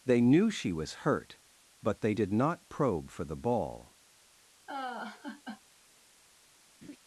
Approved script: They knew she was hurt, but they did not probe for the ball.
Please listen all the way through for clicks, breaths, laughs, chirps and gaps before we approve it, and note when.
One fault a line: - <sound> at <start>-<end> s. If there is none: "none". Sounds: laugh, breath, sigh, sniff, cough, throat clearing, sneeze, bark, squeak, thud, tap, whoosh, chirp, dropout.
- laugh at 4.7-5.6 s
- laugh at 6.8-7.0 s